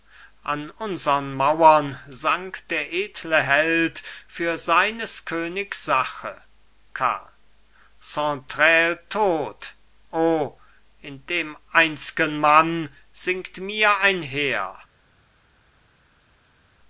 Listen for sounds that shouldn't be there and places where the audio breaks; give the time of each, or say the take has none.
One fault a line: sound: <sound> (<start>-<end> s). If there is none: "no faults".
no faults